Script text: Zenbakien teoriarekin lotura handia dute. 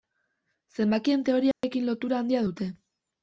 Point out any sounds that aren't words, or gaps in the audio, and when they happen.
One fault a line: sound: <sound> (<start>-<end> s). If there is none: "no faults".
sound: dropout (1.5-1.6 s)